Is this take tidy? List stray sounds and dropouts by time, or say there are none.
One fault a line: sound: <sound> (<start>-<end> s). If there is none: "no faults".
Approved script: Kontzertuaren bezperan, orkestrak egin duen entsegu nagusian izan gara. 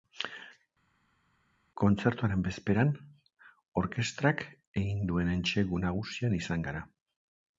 no faults